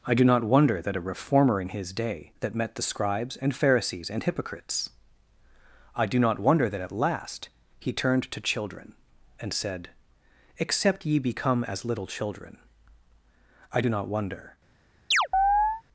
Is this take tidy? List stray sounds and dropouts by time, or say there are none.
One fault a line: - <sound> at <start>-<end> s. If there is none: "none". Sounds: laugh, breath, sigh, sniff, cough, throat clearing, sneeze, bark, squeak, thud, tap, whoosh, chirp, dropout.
- chirp at 15.1-15.8 s